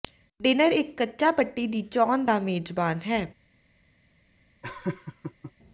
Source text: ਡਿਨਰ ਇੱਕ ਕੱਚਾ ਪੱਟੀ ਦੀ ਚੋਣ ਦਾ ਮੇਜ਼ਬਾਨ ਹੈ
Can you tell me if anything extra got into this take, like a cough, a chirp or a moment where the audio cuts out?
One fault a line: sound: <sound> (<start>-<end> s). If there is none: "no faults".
sound: laugh (4.6-5.5 s)